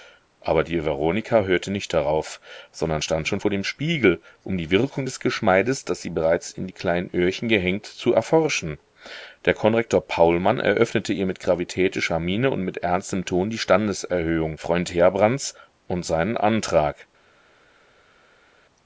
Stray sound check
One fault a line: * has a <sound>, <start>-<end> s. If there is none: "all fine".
all fine